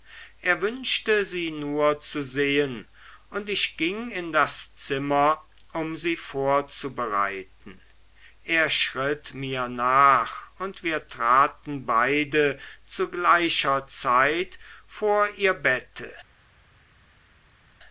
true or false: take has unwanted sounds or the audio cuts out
false